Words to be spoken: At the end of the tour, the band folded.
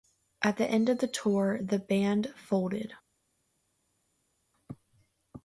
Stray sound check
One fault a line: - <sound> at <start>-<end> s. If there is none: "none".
none